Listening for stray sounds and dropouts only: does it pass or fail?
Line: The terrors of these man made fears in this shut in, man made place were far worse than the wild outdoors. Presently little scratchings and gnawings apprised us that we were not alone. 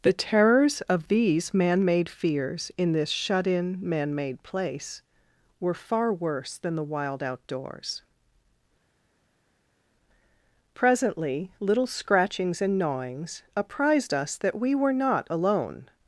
pass